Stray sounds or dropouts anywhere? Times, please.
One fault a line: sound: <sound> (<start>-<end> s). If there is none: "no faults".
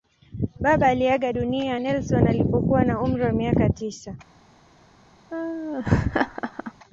sound: laugh (5.3-6.7 s)